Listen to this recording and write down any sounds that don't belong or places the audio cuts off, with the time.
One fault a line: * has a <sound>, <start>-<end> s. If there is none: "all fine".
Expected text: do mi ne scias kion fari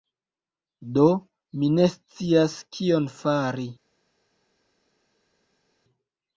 all fine